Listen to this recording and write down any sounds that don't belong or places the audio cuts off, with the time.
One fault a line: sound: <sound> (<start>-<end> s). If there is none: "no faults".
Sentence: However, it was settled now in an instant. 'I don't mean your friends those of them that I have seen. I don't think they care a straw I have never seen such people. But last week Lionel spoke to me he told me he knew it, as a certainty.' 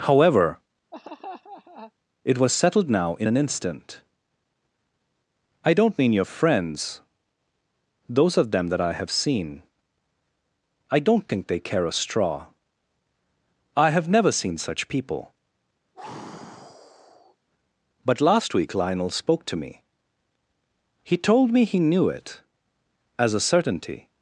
sound: laugh (0.9-1.9 s)
sound: sigh (15.9-17.4 s)